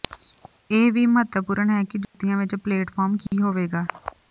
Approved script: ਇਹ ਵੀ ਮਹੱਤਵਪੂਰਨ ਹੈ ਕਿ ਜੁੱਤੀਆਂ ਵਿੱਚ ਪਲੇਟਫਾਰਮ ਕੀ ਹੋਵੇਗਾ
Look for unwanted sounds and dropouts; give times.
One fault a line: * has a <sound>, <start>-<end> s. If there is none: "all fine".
* has a dropout, 2.0-2.1 s
* has a dropout, 3.3-3.3 s